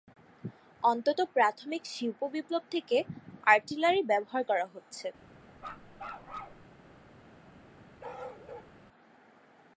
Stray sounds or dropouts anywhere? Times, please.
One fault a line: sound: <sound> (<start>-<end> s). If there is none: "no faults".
sound: bark (5.6-6.7 s)
sound: bark (8.0-8.7 s)